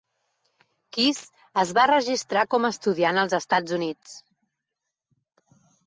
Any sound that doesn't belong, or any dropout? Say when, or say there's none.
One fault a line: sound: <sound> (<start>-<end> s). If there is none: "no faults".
no faults